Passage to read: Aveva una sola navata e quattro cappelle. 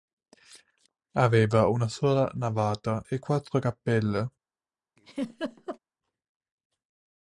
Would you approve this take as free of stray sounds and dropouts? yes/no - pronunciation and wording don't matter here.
no